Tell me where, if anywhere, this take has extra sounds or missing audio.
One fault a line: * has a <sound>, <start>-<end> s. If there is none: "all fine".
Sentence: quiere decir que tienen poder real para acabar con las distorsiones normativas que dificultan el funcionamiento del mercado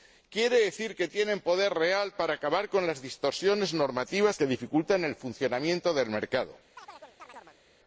* has a chirp, 6.8-7.6 s